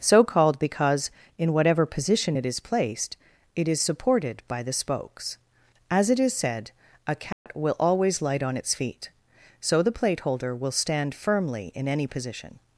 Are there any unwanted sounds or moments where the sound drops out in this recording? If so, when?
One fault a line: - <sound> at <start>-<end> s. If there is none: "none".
- dropout at 7.3-7.5 s